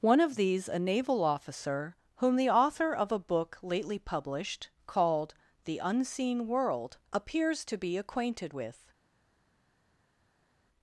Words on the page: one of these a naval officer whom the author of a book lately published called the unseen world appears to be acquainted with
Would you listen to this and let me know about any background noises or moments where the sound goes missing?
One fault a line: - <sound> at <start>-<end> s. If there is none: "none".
none